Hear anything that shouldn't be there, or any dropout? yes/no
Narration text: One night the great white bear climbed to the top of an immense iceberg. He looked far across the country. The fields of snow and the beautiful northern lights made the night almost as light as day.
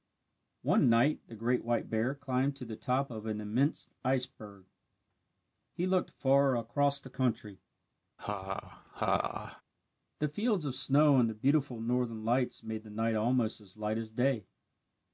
yes